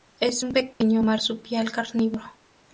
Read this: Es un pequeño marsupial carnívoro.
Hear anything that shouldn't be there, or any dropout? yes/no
yes